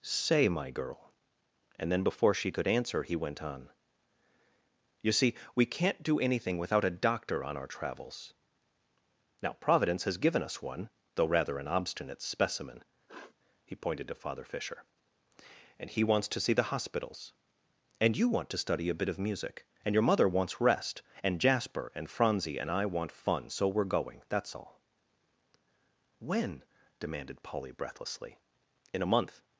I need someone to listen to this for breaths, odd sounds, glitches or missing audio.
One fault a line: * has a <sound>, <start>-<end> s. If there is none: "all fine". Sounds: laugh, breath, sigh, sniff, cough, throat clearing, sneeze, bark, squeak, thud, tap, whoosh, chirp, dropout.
* has a sniff, 13.1-13.3 s